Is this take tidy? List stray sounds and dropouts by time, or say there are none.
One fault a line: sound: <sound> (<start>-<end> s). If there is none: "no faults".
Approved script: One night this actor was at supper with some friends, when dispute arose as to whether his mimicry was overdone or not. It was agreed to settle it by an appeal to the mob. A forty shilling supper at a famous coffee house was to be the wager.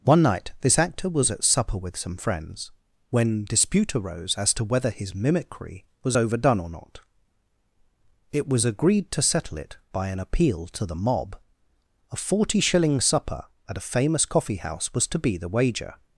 no faults